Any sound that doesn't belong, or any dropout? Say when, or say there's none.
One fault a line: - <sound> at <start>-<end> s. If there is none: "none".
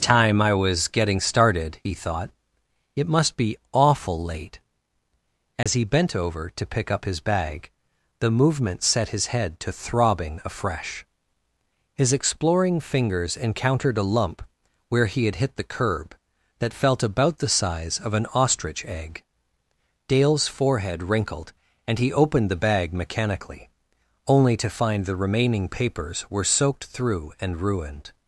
- dropout at 5.6-5.7 s